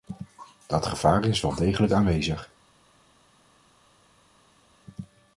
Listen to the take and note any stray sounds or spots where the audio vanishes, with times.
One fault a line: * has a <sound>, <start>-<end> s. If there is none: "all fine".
all fine